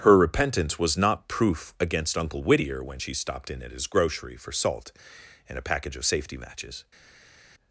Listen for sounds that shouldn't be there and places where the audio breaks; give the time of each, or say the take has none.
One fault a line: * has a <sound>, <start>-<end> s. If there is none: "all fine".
all fine